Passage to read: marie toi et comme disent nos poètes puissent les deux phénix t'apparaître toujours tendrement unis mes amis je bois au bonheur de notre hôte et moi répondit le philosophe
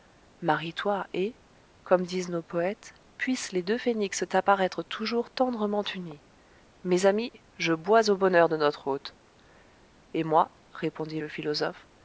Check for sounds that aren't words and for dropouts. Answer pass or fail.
pass